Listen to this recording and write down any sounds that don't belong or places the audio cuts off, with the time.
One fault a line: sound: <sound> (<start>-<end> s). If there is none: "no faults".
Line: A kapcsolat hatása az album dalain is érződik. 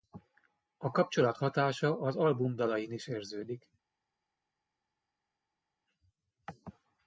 no faults